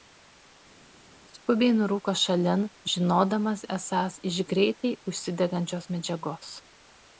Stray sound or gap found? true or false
false